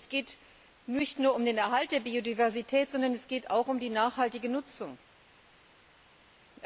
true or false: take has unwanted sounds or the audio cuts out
false